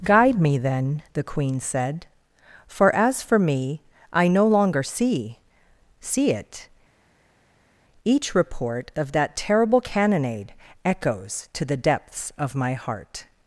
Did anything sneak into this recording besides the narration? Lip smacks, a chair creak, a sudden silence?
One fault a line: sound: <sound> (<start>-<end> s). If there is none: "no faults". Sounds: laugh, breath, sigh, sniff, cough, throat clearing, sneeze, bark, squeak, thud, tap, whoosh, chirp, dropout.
no faults